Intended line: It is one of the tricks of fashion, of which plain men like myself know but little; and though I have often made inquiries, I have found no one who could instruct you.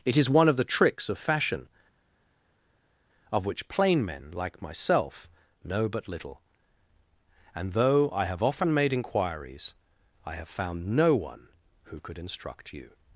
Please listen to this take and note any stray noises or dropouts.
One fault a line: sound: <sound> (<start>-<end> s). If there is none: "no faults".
no faults